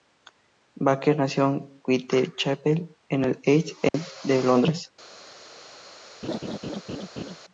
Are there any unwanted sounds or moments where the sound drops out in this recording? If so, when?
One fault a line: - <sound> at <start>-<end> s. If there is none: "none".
- dropout at 3.9-3.9 s
- laugh at 6.2-7.4 s